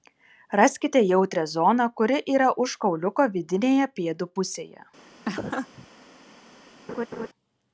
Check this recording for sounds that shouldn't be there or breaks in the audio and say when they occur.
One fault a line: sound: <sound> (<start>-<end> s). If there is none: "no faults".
sound: laugh (5.2-5.9 s)
sound: laugh (6.9-7.3 s)